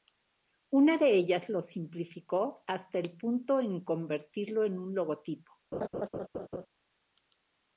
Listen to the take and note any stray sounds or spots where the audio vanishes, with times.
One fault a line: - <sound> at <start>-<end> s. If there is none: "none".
- laugh at 5.7-6.7 s